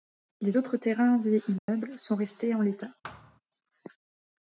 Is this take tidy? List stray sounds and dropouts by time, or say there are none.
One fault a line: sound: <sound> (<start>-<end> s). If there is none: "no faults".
sound: dropout (1.6-1.7 s)
sound: thud (3.0-3.4 s)